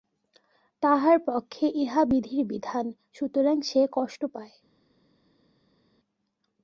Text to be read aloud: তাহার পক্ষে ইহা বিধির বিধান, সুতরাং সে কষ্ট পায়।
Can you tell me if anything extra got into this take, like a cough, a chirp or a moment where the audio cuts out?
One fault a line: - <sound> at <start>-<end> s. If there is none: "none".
none